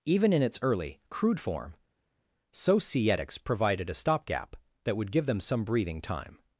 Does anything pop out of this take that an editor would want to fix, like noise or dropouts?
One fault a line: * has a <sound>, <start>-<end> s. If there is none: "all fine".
all fine